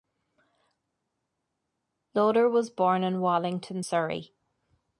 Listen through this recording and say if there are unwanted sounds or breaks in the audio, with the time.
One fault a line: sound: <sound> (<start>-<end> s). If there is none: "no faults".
no faults